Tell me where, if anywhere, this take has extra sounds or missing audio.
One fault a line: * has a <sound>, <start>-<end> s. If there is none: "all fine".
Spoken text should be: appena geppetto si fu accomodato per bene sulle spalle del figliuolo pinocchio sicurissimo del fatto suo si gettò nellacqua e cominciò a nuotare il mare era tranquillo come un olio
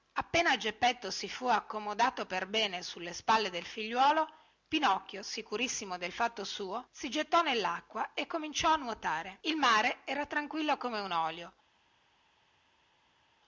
all fine